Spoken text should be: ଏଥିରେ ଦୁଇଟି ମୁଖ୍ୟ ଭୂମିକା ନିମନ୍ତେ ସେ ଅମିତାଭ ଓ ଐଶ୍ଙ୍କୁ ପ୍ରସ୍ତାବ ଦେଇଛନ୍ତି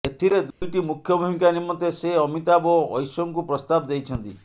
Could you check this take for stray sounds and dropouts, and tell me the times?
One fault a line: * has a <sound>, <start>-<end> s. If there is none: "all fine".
* has a dropout, 0.5-0.6 s